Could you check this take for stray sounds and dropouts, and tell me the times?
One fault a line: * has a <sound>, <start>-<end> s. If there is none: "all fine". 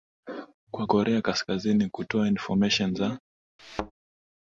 * has a thud, 3.6-3.9 s